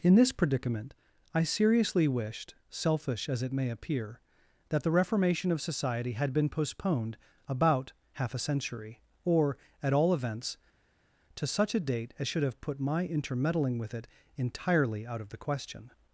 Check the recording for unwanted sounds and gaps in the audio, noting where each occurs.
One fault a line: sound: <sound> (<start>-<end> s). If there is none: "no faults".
no faults